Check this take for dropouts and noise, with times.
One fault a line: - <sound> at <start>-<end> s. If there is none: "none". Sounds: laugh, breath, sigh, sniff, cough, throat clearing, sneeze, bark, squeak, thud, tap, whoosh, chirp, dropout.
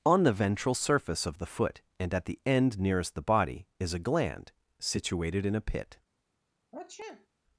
- sniff at 6.7-7.3 s